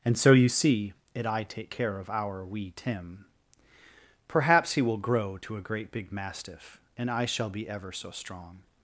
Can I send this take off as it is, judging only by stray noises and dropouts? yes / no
yes